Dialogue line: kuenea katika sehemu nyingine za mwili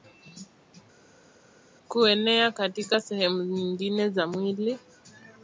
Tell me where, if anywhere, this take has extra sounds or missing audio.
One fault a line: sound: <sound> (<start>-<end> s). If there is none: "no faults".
no faults